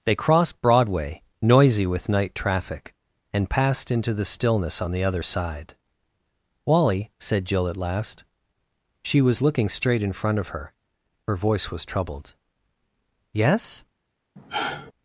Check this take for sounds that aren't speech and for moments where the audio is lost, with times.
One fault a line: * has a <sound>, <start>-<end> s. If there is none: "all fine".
* has a sigh, 14.4-14.9 s